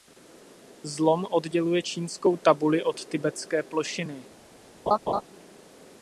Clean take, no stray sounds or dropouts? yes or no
no